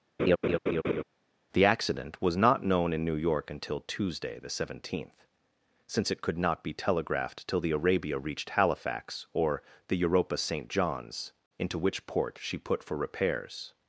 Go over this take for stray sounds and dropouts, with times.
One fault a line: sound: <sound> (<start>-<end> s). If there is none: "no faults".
sound: laugh (0.2-1.0 s)